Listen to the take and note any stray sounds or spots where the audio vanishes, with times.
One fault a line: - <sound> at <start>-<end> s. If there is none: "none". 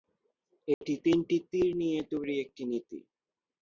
- dropout at 0.7-0.8 s